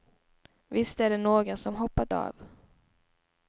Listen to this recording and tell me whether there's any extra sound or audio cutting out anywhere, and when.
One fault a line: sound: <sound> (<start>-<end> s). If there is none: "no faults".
no faults